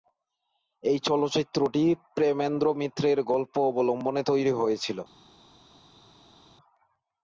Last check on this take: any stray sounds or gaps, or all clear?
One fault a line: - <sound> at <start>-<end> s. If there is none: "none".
none